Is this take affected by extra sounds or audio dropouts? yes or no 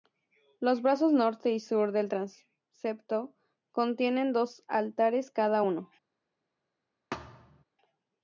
yes